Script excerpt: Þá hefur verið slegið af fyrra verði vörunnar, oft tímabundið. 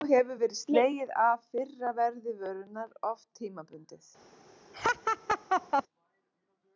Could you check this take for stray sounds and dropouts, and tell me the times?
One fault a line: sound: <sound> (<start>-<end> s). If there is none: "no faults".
sound: laugh (4.7-5.8 s)